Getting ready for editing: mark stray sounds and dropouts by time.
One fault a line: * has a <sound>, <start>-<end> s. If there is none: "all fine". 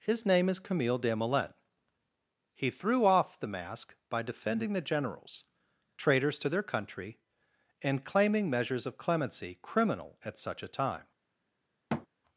* has a thud, 11.9-12.1 s